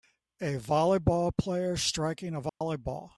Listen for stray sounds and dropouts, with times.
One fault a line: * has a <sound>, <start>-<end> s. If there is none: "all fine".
* has a dropout, 2.5-2.6 s